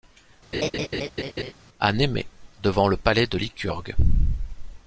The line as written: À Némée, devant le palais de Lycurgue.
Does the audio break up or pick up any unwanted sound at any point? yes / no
yes